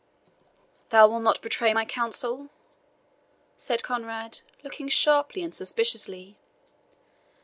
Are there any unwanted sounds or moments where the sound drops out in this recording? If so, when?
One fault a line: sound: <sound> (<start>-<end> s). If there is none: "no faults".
no faults